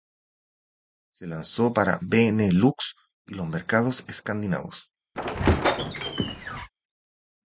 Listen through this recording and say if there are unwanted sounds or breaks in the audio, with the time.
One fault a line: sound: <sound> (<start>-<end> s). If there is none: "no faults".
sound: squeak (5.1-6.7 s)